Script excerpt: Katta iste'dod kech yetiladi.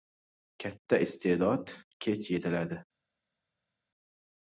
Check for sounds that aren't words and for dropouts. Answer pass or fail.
pass